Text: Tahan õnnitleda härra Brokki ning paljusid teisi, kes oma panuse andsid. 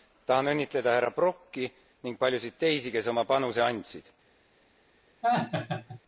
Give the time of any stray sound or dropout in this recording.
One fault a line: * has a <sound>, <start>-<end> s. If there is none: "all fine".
* has a laugh, 5.2-6.0 s